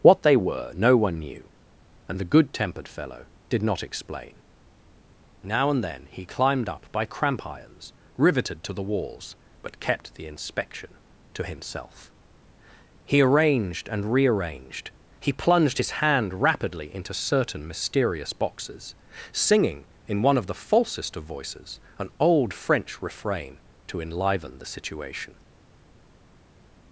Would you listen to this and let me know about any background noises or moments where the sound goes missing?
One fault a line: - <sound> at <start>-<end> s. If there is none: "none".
none